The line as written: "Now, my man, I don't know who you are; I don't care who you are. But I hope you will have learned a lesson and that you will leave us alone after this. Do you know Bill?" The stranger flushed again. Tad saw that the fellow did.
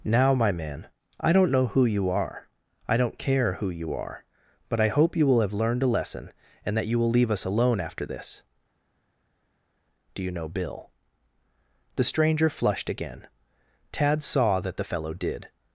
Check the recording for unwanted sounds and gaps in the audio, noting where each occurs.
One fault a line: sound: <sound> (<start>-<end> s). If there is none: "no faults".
no faults